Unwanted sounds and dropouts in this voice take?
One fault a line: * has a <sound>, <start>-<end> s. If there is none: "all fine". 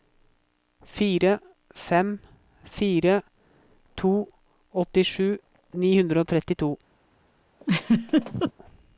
* has a laugh, 7.6-8.5 s